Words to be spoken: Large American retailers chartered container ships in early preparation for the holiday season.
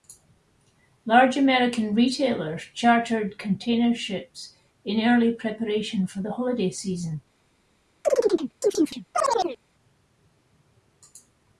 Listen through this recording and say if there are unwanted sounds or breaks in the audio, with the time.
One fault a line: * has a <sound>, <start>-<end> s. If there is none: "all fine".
* has a chirp, 8.0-9.6 s